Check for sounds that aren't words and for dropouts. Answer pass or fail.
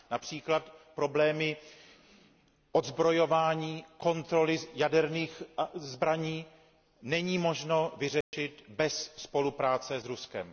fail